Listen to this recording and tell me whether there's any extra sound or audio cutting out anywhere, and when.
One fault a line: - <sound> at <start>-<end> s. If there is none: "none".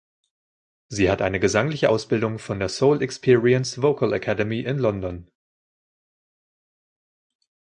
none